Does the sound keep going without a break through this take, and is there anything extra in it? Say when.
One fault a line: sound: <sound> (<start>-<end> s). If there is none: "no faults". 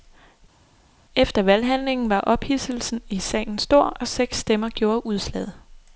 no faults